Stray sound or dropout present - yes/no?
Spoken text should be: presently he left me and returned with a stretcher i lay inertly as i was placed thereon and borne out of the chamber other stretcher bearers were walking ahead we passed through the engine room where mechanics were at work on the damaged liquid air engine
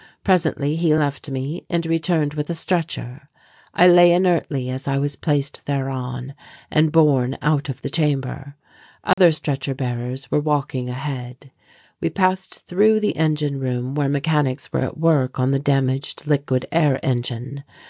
yes